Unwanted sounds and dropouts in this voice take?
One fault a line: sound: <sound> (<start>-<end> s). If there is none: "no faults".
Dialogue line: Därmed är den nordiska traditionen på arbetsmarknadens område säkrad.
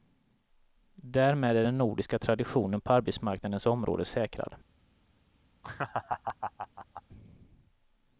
sound: laugh (5.6-7.0 s)